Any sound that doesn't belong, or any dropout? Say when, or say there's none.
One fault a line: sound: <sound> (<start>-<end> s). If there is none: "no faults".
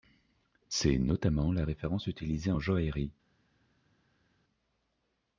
no faults